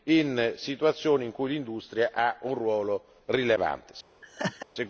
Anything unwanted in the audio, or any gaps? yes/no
yes